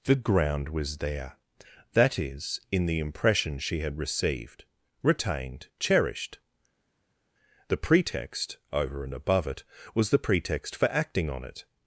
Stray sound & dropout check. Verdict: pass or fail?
pass